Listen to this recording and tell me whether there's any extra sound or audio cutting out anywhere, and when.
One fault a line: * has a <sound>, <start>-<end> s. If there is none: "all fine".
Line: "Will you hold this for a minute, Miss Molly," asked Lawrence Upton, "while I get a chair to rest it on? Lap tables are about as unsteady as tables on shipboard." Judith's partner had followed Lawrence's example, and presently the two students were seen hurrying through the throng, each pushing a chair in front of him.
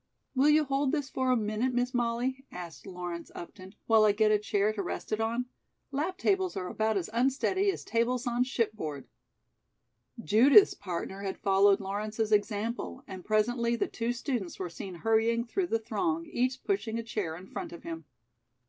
all fine